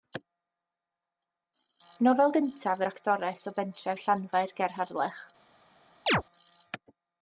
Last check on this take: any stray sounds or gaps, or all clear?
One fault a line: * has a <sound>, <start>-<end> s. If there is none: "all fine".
* has a chirp, 6.1-6.2 s